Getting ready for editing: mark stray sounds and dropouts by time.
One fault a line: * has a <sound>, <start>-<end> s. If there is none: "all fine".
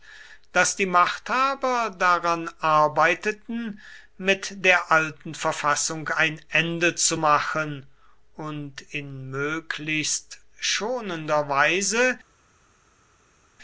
all fine